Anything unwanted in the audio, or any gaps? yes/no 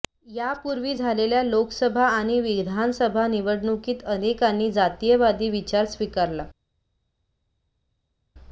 no